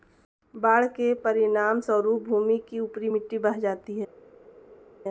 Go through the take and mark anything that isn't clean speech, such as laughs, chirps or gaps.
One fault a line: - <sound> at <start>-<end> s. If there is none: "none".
none